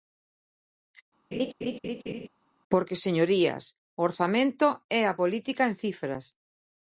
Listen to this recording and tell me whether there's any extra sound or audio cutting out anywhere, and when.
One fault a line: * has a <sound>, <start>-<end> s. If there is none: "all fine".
* has a laugh, 1.3-2.3 s